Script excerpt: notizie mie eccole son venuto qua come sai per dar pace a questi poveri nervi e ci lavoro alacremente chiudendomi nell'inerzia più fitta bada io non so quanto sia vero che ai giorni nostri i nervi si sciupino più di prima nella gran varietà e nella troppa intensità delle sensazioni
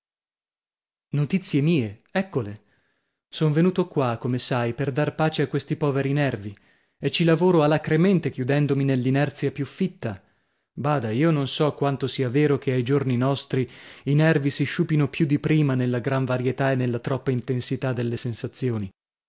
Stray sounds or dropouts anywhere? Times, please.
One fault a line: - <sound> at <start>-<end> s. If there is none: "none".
none